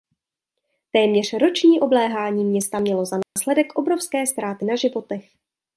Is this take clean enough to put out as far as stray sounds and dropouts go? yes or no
no